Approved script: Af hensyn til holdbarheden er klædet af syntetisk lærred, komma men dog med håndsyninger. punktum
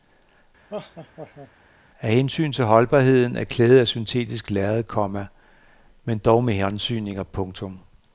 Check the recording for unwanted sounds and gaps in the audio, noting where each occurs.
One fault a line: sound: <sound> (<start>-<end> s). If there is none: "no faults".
sound: laugh (0.7-1.5 s)